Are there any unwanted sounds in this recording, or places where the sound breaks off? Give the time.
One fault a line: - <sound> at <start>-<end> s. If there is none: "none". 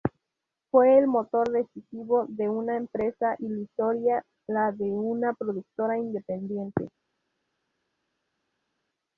none